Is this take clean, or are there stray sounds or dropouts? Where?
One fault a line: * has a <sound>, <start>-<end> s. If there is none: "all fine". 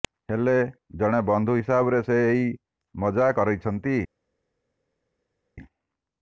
all fine